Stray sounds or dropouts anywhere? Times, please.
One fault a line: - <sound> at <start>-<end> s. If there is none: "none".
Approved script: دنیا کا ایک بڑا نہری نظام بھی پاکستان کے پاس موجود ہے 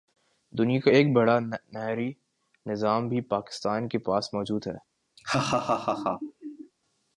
- laugh at 5.2-6.7 s